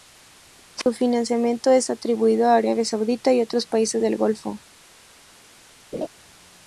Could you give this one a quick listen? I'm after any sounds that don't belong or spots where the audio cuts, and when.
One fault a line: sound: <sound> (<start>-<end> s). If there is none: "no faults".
sound: dropout (0.8-0.9 s)
sound: laugh (5.9-6.1 s)